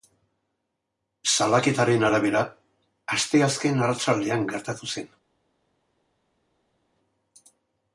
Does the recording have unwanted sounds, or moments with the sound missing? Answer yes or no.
no